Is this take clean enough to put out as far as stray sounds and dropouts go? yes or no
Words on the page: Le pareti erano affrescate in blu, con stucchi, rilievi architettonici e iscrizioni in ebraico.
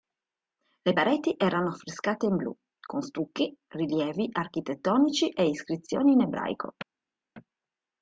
yes